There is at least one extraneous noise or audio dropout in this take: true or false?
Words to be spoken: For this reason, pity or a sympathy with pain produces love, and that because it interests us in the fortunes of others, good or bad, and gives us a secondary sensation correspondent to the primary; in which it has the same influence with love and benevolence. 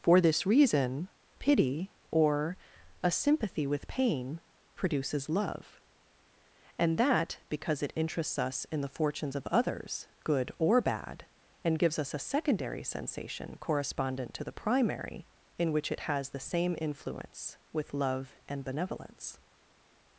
false